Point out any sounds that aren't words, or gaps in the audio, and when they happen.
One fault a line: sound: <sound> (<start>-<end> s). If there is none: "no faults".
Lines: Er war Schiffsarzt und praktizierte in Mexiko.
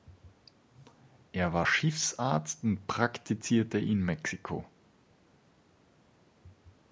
no faults